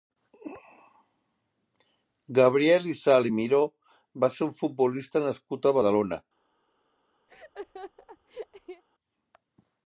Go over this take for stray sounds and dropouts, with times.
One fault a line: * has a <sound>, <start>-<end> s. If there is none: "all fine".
* has a laugh, 7.3-8.8 s